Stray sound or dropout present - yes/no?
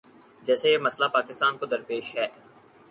no